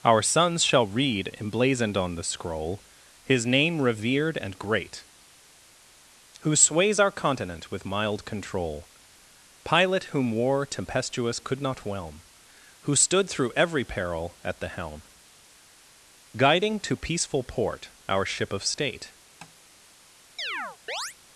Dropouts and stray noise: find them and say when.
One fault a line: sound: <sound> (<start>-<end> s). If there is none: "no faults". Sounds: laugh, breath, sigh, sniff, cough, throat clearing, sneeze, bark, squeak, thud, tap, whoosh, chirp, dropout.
sound: tap (19.4-19.6 s)
sound: chirp (20.4-21.2 s)